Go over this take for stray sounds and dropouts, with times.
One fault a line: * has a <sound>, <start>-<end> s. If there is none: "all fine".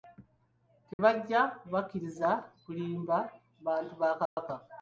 * has a dropout, 0.9-1.0 s
* has a dropout, 4.3-4.4 s